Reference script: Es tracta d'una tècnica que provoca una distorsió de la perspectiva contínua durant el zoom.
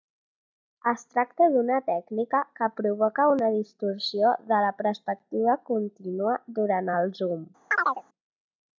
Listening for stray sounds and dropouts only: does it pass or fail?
fail